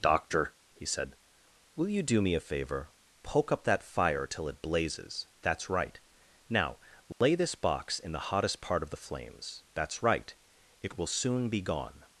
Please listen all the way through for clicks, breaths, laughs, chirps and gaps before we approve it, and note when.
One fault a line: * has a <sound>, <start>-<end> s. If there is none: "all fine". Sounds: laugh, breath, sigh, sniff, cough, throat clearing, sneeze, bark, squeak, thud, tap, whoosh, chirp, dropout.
* has a dropout, 7.1-7.2 s